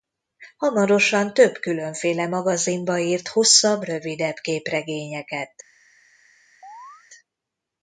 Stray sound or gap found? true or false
true